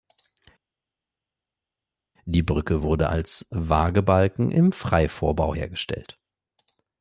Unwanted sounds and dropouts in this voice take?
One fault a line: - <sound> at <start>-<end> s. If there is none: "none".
none